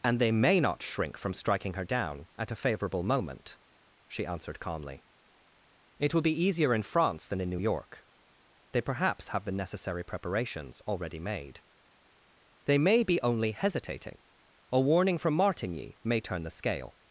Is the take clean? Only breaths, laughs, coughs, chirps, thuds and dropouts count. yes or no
yes